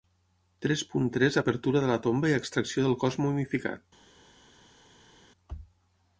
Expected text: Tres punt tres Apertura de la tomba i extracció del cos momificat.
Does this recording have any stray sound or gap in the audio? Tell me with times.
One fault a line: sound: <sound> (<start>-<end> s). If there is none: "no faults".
no faults